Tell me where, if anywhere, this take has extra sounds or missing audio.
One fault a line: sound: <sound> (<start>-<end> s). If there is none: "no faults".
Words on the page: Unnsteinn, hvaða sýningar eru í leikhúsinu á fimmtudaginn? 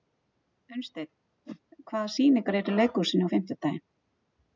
sound: whoosh (1.4-1.6 s)